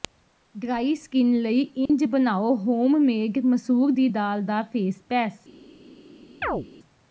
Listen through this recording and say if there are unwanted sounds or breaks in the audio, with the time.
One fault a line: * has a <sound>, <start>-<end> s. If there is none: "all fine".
* has a dropout, 1.9-1.9 s
* has a chirp, 6.4-6.7 s